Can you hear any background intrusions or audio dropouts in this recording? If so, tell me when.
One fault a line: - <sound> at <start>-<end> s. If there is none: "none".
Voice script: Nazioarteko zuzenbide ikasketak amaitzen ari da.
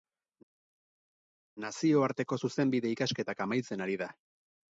none